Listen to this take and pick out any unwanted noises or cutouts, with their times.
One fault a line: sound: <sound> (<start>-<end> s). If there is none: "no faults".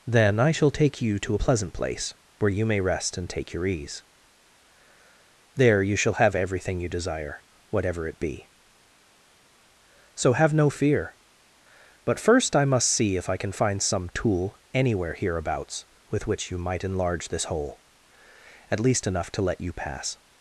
no faults